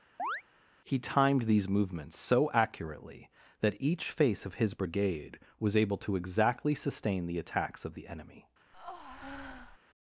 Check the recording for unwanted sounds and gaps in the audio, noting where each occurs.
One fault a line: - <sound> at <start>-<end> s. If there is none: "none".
- chirp at 0.2-0.4 s
- breath at 8.7-9.8 s